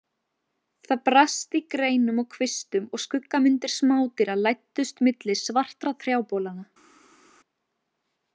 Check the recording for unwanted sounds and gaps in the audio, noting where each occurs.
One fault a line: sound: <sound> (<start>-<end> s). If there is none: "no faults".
no faults